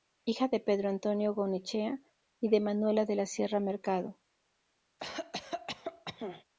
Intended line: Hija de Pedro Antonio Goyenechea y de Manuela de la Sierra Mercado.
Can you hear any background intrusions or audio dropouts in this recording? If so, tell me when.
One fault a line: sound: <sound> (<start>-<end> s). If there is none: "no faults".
sound: cough (5.0-6.4 s)